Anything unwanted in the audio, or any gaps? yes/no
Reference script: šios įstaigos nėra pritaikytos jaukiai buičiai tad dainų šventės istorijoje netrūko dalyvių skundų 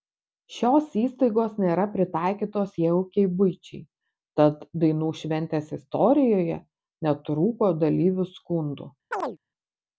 yes